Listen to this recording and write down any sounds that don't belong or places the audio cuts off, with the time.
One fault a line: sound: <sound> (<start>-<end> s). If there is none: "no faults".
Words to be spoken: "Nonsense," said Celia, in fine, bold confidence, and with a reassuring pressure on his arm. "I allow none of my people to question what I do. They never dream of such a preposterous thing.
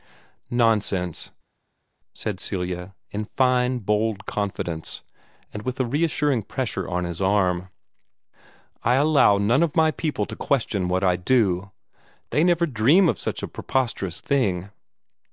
no faults